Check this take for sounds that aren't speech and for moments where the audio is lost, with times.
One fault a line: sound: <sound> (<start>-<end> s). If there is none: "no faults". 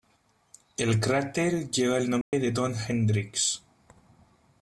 sound: dropout (2.2-2.3 s)